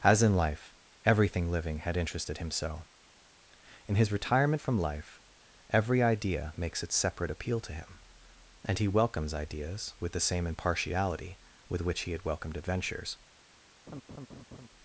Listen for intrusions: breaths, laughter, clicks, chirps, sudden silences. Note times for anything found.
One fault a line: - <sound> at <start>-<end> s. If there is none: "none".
- laugh at 13.9-14.7 s